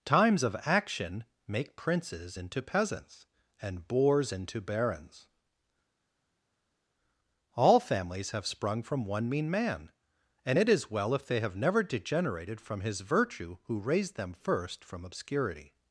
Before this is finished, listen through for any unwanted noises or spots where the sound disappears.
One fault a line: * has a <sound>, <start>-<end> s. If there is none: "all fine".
all fine